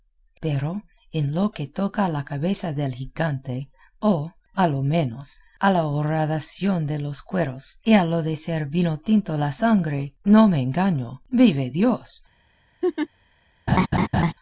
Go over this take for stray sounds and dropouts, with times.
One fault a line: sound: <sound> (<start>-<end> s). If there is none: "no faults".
sound: laugh (12.8-13.1 s)
sound: laugh (13.7-14.3 s)